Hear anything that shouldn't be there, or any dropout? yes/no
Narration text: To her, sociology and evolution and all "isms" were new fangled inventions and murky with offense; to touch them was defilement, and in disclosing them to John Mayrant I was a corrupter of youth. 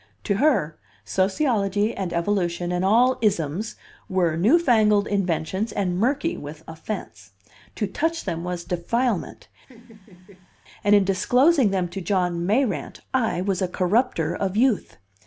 yes